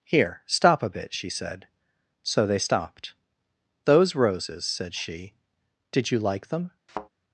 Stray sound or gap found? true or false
true